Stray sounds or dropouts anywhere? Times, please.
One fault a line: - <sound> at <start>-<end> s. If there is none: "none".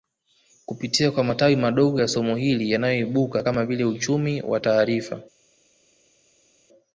none